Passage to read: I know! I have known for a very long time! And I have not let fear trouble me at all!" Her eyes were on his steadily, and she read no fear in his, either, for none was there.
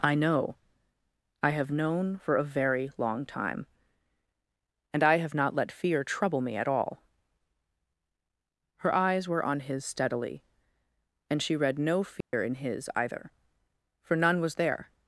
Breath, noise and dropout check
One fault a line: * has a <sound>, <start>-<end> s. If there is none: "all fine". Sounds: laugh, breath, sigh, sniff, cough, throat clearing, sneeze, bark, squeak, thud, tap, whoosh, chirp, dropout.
* has a dropout, 12.2-12.3 s